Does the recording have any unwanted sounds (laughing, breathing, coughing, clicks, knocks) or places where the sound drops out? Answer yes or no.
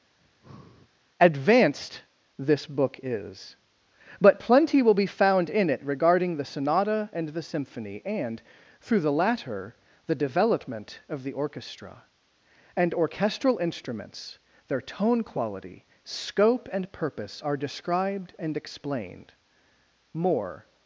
yes